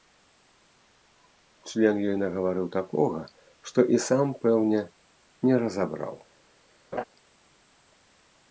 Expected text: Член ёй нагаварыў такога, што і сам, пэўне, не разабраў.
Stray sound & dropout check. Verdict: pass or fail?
fail